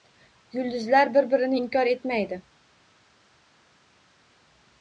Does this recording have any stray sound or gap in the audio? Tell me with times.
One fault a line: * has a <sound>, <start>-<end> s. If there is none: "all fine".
all fine